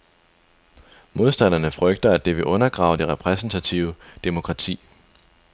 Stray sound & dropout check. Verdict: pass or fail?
pass